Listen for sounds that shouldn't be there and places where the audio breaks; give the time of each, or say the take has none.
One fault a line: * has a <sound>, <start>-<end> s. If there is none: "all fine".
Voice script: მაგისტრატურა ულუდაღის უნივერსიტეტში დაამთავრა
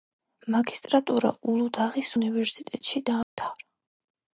* has a dropout, 3.2-3.4 s